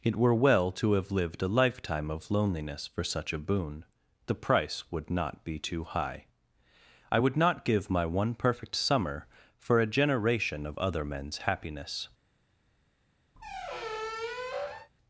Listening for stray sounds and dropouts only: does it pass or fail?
fail